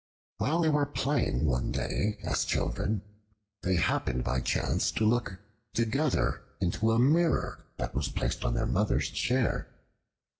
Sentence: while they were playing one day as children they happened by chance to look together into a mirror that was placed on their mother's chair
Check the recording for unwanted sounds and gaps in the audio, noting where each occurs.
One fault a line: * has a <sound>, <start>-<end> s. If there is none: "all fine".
all fine